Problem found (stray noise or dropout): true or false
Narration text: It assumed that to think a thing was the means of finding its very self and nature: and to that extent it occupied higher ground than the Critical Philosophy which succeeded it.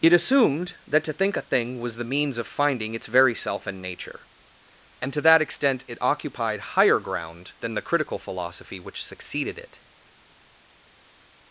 false